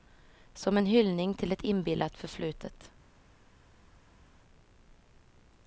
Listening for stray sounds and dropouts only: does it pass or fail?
pass